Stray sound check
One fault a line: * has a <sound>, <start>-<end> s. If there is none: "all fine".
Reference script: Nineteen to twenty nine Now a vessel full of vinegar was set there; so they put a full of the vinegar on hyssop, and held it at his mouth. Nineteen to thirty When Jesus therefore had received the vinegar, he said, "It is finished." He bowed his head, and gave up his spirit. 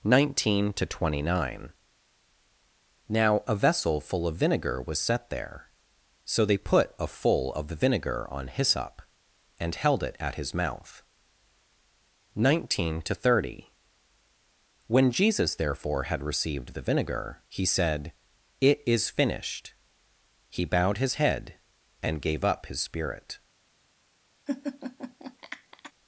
* has a laugh, 24.5-25.9 s